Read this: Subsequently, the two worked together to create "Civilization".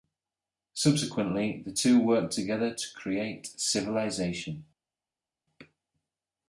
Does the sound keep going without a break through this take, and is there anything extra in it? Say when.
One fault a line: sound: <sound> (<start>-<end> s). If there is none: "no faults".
no faults